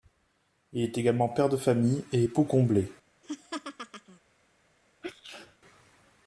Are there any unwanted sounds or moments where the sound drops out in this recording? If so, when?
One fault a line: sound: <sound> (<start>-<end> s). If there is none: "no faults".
sound: laugh (3.2-4.2 s)
sound: sneeze (5.0-5.6 s)